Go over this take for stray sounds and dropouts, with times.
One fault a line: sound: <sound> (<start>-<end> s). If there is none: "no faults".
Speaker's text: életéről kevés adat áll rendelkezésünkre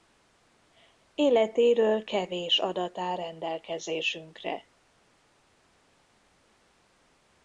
no faults